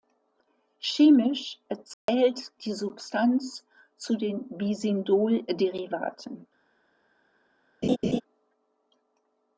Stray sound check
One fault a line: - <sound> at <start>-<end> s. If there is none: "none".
- dropout at 1.9-2.1 s
- laugh at 7.8-8.2 s